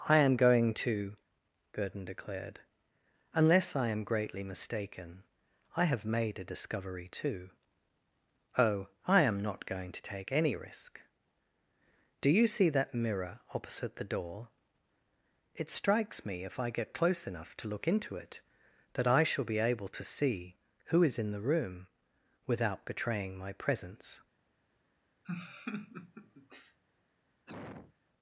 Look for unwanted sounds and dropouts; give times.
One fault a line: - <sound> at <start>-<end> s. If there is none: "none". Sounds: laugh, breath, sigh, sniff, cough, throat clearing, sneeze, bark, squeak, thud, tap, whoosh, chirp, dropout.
- laugh at 25.2-26.8 s
- cough at 27.5-27.9 s